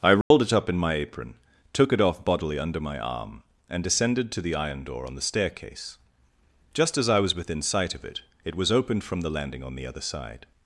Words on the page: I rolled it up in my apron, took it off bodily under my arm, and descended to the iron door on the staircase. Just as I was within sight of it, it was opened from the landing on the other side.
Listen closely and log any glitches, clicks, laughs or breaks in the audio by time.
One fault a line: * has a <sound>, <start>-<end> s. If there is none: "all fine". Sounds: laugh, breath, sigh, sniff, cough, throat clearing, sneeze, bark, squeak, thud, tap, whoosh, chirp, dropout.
* has a dropout, 0.2-0.3 s